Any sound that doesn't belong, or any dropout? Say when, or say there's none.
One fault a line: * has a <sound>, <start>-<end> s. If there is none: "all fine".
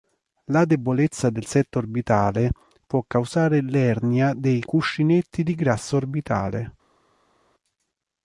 all fine